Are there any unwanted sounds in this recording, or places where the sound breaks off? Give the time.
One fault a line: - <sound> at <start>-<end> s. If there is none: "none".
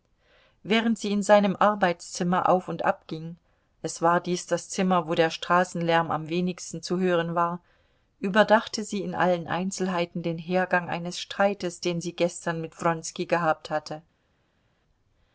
none